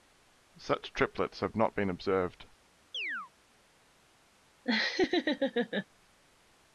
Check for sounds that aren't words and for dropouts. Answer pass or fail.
fail